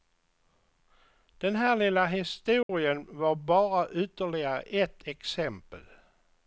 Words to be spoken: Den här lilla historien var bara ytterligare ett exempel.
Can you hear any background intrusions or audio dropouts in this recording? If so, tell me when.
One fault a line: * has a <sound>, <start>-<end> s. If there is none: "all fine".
* has a dropout, 2.6-2.7 s